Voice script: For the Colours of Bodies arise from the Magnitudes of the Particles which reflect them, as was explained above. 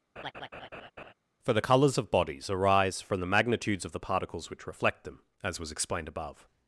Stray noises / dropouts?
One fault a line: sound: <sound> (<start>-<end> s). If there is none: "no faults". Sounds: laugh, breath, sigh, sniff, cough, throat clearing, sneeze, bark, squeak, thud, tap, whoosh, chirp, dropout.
sound: laugh (0.2-1.1 s)